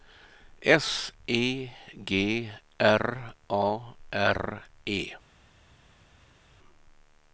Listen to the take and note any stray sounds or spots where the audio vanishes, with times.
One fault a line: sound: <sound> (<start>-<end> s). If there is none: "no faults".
no faults